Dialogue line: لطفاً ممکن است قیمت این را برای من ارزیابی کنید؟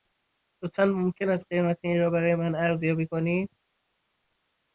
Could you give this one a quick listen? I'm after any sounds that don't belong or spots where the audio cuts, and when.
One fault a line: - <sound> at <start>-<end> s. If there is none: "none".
none